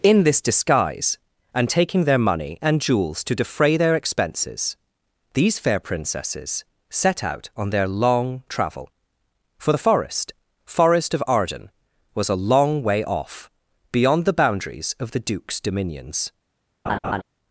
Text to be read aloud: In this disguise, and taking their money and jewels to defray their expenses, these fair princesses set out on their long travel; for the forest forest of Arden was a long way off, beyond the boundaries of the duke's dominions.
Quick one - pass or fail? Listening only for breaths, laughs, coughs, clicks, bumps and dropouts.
fail